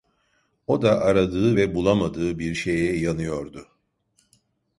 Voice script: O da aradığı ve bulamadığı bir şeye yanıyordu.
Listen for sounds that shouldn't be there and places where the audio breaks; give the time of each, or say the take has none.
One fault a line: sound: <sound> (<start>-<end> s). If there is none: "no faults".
no faults